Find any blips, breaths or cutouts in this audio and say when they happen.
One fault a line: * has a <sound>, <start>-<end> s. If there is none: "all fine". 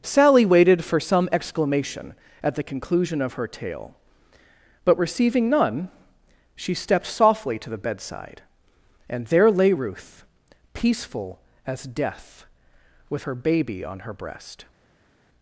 all fine